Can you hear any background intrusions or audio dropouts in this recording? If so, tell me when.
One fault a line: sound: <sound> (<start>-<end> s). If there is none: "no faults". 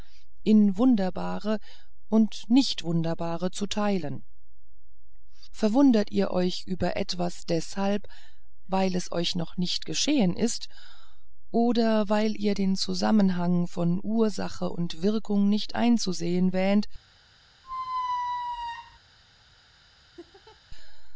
sound: squeak (17.6-19.0 s)
sound: laugh (20.2-20.6 s)